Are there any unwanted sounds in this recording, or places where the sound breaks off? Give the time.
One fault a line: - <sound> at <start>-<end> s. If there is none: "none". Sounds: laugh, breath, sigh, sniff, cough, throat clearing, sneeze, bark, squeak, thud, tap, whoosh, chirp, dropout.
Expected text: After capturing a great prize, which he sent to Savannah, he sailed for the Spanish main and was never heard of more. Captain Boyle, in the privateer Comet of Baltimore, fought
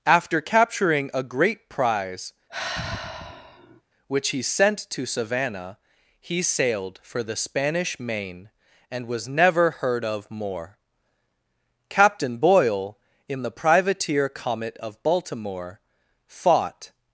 - sigh at 2.5-3.8 s